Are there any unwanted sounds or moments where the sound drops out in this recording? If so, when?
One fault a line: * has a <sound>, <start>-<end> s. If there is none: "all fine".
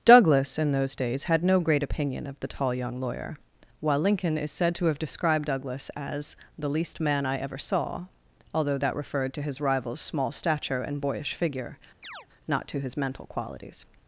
* has a chirp, 12.0-12.3 s